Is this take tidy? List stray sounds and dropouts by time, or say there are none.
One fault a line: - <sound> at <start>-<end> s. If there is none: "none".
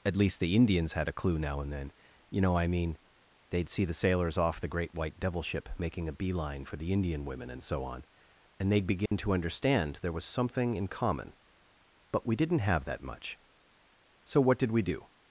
- dropout at 9.1-9.1 s